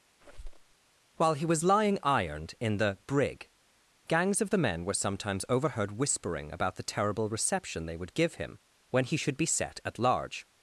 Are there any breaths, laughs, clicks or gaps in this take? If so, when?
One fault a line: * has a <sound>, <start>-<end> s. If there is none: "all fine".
* has a squeak, 0.2-0.7 s